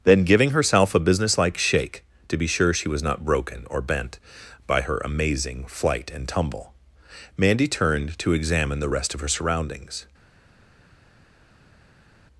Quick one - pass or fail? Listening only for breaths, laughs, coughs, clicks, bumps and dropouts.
pass